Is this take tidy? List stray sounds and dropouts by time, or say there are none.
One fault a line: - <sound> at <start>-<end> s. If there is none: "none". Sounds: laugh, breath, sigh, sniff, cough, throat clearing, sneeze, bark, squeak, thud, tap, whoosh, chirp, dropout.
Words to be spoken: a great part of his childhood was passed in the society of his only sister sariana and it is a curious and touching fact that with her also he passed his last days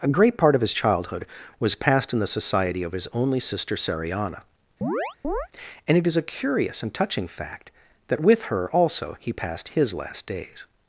- chirp at 4.8-5.5 s